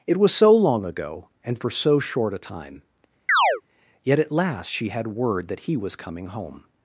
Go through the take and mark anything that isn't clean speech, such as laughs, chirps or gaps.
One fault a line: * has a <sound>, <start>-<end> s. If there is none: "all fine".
* has a chirp, 3.3-3.6 s